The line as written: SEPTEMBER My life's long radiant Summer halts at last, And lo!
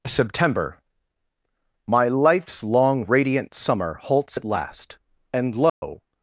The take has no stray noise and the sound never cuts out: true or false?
false